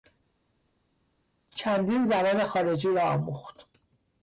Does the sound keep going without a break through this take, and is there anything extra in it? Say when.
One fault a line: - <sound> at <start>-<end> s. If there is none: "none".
none